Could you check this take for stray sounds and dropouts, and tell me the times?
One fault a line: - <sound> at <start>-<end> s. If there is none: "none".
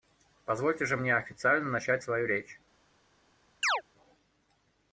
- chirp at 3.6-3.8 s